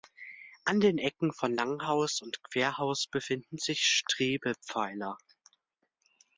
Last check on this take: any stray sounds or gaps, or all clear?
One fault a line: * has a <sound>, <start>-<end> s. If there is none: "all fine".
all fine